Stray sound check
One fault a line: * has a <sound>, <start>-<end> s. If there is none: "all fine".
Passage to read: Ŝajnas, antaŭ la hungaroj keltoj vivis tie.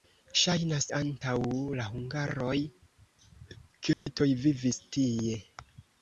* has a dropout, 3.9-4.1 s